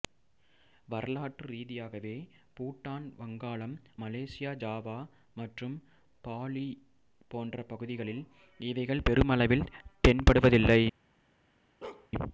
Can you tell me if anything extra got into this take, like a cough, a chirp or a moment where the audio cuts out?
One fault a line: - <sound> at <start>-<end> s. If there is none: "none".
- bark at 11.8-12.1 s